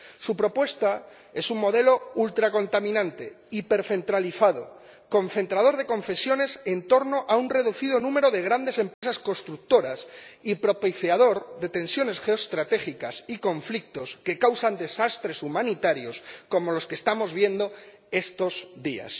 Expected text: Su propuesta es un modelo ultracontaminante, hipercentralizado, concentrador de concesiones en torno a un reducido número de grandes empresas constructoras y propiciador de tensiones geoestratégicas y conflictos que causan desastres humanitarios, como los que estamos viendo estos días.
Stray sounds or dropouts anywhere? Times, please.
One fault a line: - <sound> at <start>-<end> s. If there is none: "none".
- dropout at 8.9-9.0 s